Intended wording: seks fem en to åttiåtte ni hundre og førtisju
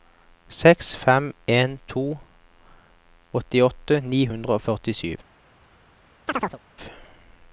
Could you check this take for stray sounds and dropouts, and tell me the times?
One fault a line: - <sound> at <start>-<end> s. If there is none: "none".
- chirp at 6.3-6.6 s